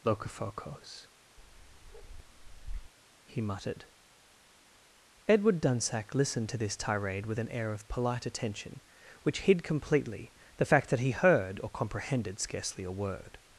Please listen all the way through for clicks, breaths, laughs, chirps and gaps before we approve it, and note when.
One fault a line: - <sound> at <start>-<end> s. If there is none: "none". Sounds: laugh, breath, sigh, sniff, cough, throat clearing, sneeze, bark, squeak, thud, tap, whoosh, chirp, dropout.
- bark at 1.4-2.9 s